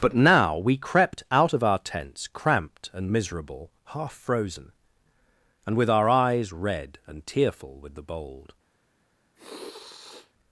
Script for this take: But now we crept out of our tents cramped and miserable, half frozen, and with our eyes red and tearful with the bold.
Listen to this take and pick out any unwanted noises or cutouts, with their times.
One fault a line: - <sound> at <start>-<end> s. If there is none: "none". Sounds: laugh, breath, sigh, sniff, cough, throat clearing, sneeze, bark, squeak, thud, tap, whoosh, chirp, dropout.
- sniff at 9.4-10.3 s